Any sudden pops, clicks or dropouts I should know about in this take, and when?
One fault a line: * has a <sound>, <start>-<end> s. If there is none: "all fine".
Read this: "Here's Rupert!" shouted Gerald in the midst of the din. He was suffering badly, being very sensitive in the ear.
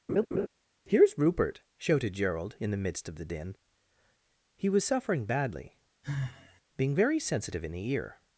* has a laugh, 0.1-0.5 s
* has a sigh, 6.0-6.6 s